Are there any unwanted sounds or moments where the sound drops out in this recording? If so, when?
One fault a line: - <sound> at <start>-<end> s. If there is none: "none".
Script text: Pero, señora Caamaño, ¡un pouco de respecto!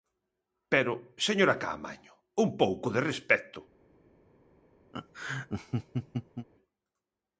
- laugh at 4.9-6.5 s